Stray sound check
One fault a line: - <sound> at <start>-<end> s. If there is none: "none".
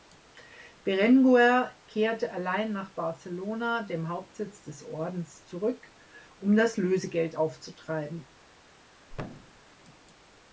- thud at 9.1-9.6 s